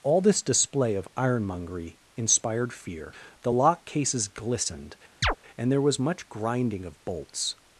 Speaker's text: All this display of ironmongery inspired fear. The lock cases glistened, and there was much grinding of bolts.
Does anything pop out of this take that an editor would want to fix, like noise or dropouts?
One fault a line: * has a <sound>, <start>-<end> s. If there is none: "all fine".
* has a chirp, 5.2-5.4 s